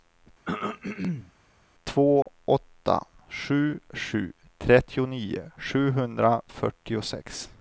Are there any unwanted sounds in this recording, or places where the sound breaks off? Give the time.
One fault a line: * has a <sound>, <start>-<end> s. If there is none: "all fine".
* has a throat clearing, 0.5-1.3 s
* has a dropout, 2.2-2.3 s